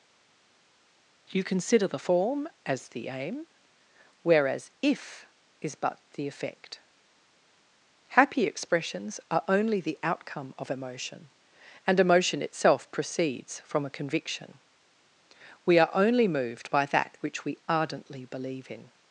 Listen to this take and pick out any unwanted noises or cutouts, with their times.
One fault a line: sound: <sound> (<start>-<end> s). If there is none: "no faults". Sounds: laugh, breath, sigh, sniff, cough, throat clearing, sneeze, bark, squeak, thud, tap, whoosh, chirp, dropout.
no faults